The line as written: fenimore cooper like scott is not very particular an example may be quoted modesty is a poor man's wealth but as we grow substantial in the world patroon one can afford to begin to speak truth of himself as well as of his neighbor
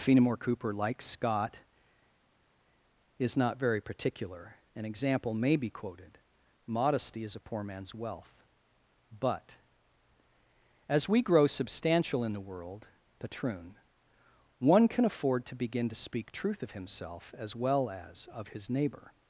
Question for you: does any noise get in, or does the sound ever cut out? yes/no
no